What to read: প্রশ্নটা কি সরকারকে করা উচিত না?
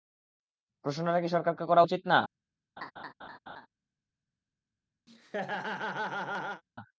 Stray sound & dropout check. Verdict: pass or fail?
fail